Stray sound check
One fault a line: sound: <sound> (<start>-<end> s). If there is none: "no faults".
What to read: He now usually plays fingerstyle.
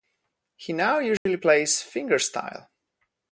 sound: dropout (1.2-1.3 s)